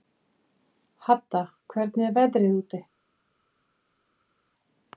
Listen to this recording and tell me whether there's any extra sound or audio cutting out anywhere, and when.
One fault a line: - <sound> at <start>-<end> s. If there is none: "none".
none